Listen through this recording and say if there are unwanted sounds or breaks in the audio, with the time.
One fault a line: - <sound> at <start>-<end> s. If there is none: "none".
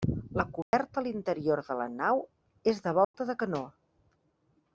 - dropout at 0.6-0.7 s
- dropout at 3.0-3.1 s